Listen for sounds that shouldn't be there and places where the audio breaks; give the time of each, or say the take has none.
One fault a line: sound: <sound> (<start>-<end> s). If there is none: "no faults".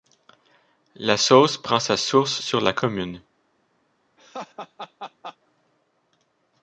sound: laugh (4.2-5.4 s)